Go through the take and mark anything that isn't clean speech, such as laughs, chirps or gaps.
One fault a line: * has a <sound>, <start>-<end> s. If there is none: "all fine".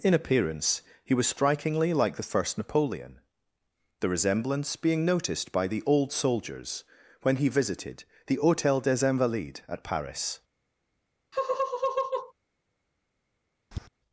* has a laugh, 11.3-12.3 s
* has a tap, 13.7-13.9 s